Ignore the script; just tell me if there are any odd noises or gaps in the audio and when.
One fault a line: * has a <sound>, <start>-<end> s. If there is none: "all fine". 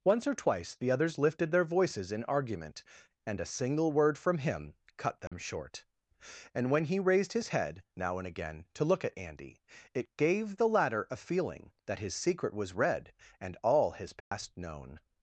* has a dropout, 5.3-5.3 s
* has a dropout, 14.2-14.3 s